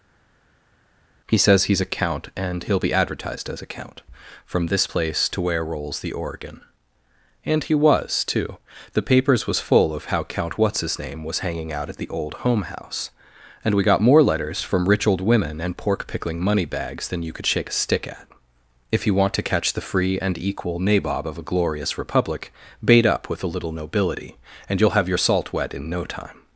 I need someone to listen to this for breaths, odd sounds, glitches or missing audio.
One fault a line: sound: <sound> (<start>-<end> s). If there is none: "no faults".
no faults